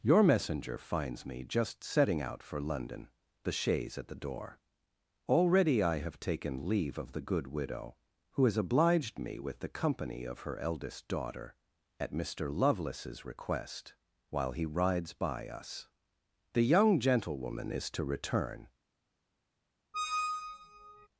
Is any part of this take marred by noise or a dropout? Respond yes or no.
yes